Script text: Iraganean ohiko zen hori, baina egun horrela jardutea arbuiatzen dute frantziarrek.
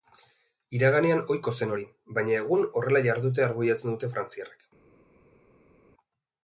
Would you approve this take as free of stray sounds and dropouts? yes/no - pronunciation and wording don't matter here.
yes